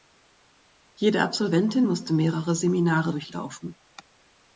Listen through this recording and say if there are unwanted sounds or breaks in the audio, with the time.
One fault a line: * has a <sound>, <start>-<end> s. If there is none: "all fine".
all fine